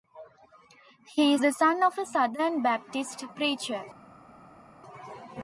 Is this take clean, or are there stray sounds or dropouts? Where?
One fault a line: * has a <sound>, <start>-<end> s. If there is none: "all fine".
all fine